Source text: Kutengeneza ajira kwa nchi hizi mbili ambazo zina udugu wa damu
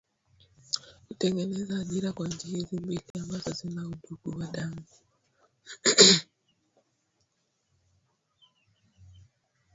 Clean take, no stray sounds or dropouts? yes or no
no